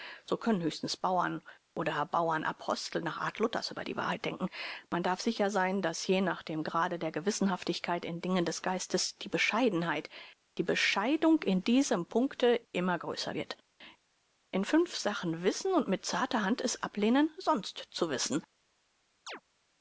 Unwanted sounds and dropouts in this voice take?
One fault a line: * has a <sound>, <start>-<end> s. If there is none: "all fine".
* has a chirp, 19.3-19.4 s